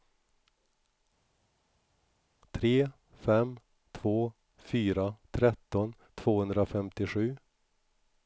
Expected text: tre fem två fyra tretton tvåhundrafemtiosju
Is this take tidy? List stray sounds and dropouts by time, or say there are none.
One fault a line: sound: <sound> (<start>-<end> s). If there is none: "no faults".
no faults